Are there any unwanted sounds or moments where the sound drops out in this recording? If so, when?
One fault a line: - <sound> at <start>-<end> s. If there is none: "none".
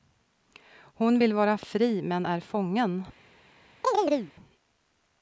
- chirp at 3.8-4.3 s